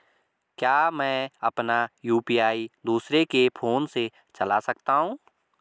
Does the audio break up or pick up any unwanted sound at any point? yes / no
no